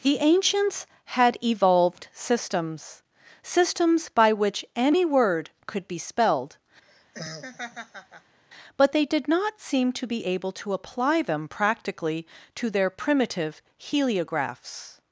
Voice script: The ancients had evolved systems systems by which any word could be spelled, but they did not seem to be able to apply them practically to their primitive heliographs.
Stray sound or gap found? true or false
true